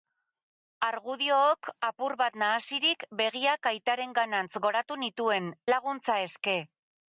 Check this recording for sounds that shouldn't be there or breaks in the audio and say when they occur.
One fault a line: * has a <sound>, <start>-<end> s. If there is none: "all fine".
all fine